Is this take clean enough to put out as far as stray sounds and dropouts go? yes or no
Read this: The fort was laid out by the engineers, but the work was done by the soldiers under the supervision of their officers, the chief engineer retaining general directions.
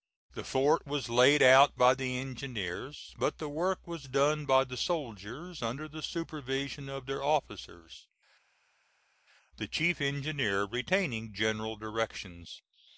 yes